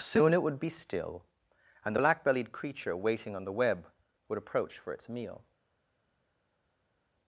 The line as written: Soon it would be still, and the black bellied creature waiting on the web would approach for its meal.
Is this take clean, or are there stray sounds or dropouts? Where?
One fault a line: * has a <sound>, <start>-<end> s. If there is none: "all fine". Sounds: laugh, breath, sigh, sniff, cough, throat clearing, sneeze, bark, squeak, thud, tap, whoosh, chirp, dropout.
all fine